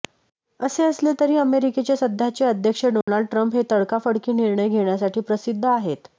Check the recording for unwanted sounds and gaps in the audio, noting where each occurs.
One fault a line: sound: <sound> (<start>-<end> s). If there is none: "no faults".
sound: dropout (3.0-3.1 s)